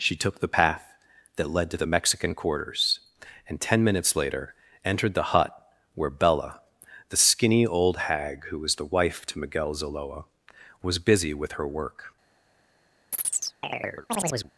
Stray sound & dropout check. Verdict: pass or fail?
fail